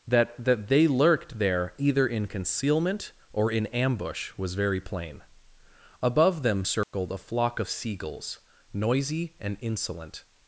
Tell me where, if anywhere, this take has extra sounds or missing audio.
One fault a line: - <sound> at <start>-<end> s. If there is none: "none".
- dropout at 6.8-6.9 s